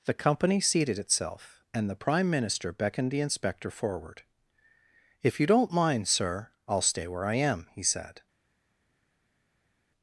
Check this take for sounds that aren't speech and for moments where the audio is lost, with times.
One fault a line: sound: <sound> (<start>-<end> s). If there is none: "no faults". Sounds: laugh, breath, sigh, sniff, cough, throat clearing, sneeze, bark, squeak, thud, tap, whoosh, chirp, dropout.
no faults